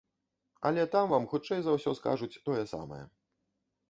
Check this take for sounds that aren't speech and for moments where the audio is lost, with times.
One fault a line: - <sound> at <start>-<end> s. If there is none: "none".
none